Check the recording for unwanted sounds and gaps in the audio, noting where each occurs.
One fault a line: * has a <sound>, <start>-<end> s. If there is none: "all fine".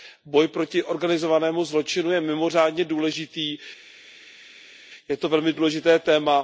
all fine